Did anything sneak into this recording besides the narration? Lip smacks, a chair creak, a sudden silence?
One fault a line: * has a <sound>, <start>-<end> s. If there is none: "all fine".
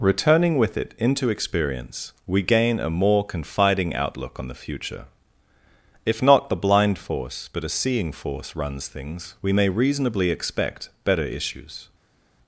all fine